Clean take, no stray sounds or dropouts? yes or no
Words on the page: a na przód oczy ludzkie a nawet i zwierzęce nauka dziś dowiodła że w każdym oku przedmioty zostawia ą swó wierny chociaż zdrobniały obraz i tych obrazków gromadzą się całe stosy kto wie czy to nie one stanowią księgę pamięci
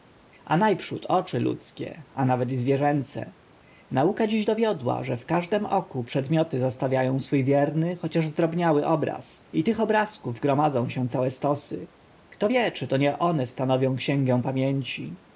yes